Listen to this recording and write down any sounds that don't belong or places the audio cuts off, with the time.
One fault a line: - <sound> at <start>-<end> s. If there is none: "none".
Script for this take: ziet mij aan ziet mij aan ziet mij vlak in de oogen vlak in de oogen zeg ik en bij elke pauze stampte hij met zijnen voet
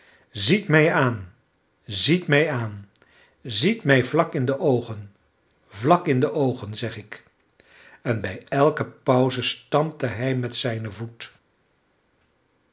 none